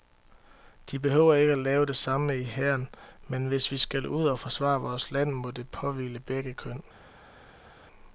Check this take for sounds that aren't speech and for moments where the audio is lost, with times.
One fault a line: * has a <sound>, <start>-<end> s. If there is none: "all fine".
all fine